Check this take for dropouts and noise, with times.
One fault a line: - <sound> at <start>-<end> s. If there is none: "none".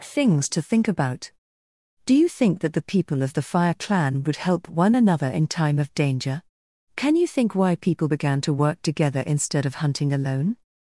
none